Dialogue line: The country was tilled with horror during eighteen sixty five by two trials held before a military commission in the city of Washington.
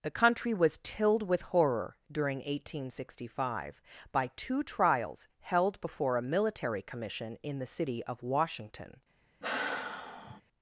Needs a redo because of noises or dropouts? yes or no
yes